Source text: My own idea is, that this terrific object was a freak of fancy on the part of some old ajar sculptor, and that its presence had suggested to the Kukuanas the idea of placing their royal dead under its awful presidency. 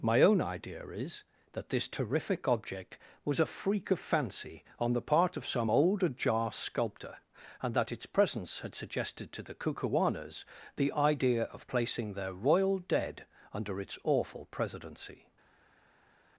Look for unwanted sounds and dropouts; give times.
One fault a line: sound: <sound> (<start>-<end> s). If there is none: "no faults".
no faults